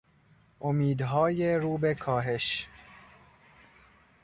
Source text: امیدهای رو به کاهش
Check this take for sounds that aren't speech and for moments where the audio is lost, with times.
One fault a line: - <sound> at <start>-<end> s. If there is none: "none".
none